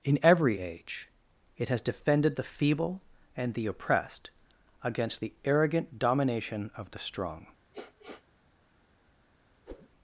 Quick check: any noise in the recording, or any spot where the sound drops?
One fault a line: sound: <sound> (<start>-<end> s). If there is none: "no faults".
sound: sniff (7.7-8.2 s)
sound: whoosh (9.7-9.9 s)